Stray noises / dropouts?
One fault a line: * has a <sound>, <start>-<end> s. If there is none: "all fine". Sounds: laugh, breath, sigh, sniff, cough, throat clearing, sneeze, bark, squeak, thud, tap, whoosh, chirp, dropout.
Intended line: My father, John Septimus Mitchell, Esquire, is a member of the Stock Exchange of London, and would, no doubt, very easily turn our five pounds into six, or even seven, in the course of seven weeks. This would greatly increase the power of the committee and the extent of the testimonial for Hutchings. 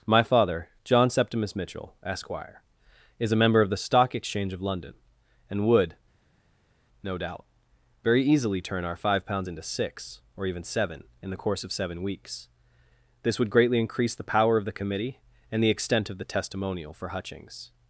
all fine